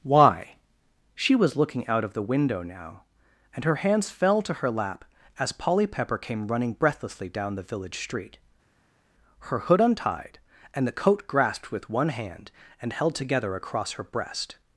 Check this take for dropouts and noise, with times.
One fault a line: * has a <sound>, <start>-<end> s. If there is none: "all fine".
all fine